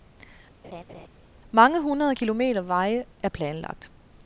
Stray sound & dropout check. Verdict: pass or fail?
fail